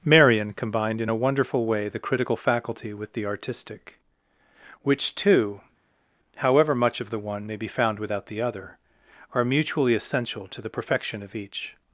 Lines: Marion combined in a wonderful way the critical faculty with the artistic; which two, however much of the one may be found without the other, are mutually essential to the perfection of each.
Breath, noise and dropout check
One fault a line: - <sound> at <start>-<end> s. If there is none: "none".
none